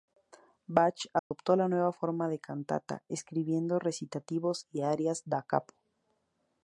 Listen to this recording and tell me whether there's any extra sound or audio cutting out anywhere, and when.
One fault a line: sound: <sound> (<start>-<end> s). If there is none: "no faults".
sound: dropout (1.2-1.3 s)